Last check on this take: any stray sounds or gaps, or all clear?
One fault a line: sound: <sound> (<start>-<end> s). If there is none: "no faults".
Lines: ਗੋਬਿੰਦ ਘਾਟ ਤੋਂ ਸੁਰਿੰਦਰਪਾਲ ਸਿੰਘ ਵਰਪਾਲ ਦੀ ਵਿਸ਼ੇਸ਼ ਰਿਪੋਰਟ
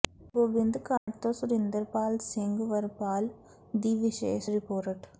sound: dropout (1.0-1.1 s)